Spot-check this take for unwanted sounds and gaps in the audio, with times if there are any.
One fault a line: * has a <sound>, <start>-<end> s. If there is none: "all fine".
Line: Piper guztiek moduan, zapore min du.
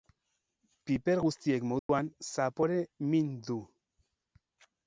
* has a dropout, 1.8-1.9 s